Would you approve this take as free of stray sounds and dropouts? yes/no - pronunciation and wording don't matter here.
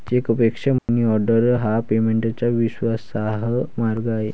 no